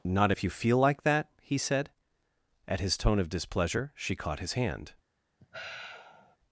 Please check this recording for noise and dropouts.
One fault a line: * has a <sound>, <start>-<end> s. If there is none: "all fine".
* has a sigh, 5.4-6.4 s